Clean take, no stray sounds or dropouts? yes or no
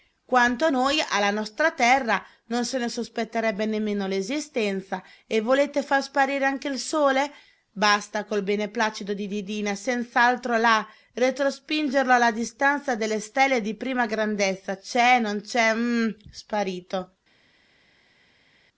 yes